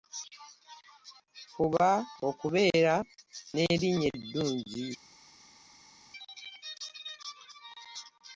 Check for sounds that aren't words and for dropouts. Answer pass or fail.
pass